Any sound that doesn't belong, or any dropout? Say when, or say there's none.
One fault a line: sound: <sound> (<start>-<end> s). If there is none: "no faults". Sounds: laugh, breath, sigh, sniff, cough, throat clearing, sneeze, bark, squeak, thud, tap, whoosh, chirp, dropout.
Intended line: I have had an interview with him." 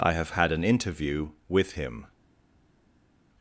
no faults